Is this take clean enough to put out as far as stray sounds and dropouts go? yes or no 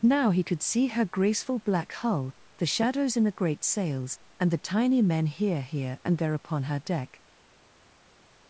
yes